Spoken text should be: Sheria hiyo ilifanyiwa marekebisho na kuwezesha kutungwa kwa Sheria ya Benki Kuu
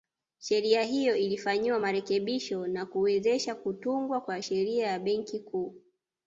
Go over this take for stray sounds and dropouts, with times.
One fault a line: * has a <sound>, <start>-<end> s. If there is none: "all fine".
all fine